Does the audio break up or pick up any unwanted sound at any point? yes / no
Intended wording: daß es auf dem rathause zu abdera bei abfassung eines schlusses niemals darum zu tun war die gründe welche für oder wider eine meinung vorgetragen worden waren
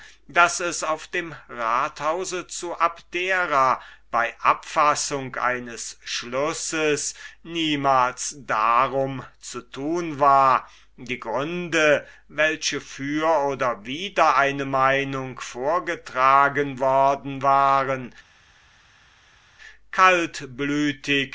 no